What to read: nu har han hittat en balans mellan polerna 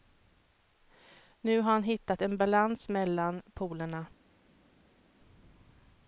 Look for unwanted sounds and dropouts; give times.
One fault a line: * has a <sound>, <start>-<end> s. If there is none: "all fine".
all fine